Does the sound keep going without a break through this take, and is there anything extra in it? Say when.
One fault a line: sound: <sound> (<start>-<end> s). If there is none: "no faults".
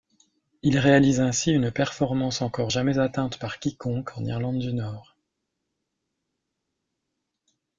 no faults